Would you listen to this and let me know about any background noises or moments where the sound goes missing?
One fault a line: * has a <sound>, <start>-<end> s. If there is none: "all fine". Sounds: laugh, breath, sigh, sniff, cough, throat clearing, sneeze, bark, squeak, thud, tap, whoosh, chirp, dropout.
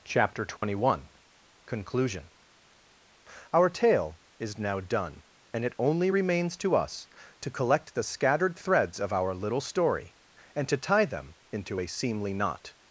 * has a dropout, 0.6-0.6 s